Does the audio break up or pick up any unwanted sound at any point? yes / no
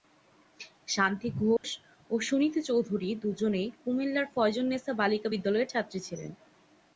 yes